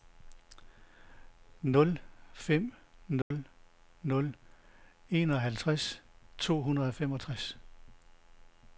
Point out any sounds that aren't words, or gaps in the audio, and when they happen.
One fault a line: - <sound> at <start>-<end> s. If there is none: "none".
- dropout at 3.2-3.3 s